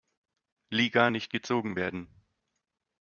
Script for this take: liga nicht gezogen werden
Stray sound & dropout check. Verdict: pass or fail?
pass